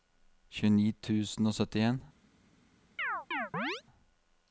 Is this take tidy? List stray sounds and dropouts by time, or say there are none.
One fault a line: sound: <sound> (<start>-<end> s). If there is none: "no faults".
sound: chirp (3.0-3.8 s)